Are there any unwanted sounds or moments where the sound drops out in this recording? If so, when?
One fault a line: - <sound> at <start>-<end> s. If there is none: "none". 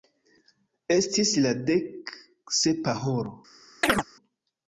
- chirp at 3.8-4.0 s